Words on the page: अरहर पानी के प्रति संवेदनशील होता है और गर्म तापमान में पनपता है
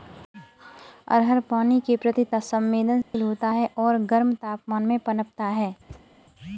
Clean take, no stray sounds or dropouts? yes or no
no